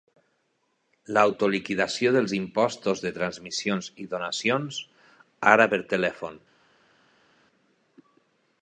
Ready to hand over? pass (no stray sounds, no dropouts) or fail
pass